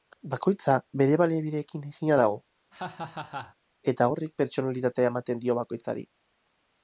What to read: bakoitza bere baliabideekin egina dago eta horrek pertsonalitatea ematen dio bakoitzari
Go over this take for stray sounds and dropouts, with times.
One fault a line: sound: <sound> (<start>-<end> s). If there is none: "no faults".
sound: laugh (2.7-3.6 s)